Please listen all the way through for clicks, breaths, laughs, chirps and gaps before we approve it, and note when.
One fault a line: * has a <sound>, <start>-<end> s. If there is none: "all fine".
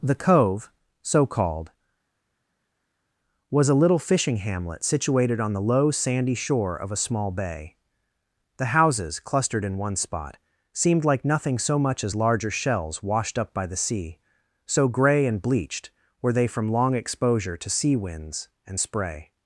all fine